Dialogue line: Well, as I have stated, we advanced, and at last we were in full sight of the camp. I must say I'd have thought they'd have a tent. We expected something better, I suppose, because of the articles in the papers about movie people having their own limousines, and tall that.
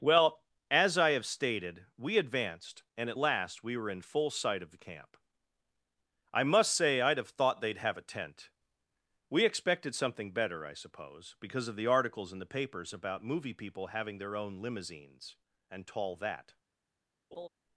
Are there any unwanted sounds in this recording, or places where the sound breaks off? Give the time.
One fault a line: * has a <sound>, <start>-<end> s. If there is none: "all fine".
* has a laugh, 17.3-17.5 s